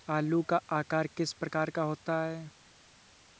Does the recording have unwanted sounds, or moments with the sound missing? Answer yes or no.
no